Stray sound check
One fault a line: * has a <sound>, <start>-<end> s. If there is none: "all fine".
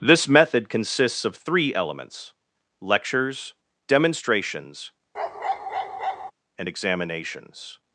* has a bark, 5.1-6.3 s